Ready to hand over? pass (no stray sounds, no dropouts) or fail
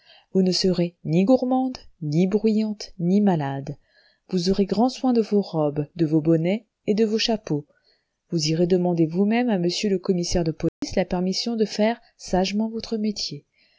fail